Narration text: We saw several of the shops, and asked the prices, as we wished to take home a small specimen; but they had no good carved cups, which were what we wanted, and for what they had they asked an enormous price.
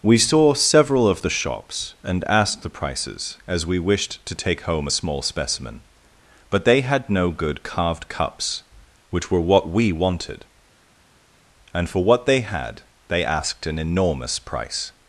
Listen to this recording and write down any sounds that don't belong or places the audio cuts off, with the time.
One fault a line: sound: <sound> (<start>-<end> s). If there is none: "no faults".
no faults